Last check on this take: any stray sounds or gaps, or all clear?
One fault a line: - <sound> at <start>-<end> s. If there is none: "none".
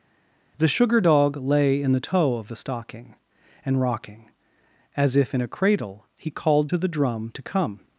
none